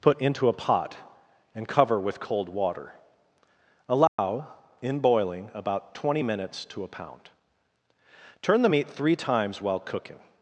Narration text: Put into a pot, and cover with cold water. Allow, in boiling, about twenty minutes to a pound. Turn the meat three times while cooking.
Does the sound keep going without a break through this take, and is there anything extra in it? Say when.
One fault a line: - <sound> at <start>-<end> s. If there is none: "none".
- dropout at 4.1-4.2 s